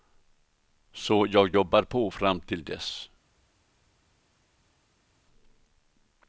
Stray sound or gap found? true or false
false